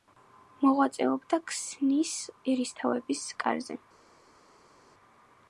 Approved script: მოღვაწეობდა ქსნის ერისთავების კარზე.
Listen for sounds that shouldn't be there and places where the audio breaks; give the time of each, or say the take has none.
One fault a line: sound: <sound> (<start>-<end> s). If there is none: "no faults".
no faults